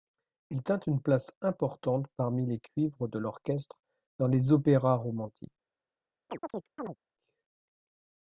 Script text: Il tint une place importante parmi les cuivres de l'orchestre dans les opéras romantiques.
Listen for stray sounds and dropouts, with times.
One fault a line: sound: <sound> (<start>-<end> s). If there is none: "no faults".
sound: chirp (6.3-7.0 s)